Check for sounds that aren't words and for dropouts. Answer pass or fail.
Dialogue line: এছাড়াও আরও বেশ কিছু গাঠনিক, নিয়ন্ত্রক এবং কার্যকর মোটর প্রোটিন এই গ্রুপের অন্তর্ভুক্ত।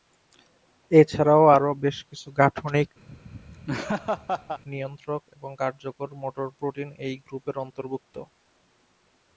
fail